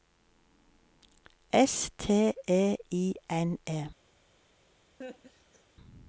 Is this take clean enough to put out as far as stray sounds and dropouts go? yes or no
no